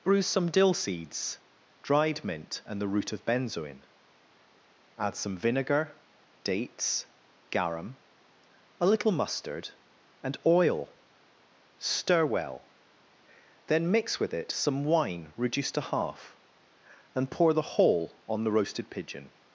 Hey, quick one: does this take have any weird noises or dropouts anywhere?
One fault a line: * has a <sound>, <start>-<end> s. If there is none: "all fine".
all fine